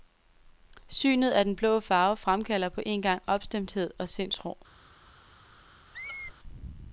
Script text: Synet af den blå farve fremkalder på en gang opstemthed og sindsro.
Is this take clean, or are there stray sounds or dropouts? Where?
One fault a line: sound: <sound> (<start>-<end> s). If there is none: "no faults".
sound: squeak (5.9-6.3 s)